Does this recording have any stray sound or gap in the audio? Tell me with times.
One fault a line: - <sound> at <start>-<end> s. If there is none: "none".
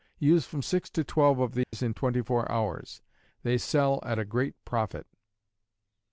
- dropout at 1.6-1.7 s